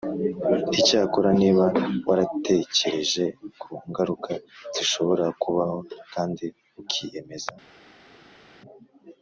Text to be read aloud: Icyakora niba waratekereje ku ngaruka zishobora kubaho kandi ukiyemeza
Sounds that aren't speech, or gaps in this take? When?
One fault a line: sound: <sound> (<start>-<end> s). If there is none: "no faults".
no faults